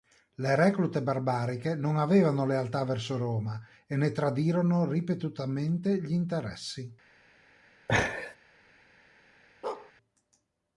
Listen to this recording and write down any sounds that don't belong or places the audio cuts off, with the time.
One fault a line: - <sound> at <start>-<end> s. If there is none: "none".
- laugh at 7.9-8.4 s
- bark at 9.6-9.9 s